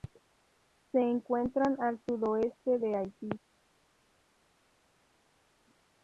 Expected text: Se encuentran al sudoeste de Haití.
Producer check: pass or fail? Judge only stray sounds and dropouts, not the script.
pass